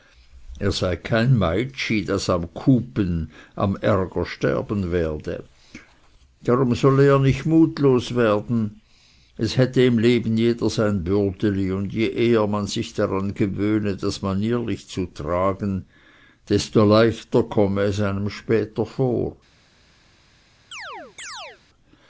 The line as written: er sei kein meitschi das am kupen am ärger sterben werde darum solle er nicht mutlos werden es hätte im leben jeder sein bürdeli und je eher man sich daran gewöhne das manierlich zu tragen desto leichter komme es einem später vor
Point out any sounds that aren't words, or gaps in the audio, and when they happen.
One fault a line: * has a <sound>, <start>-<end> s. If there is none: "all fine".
* has a chirp, 20.7-21.6 s